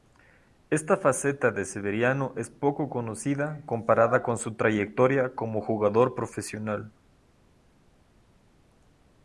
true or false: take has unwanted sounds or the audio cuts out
false